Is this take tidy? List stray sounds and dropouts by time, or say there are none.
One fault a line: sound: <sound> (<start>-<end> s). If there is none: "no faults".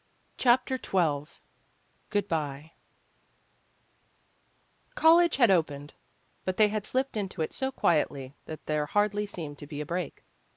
no faults